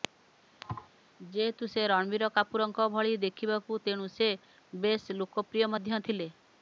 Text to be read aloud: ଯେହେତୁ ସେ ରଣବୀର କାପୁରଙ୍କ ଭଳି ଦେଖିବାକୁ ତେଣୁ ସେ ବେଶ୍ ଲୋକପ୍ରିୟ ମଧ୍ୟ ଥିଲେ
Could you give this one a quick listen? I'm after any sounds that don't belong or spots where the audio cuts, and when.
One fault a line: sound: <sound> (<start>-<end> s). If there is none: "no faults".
sound: thud (0.6-0.9 s)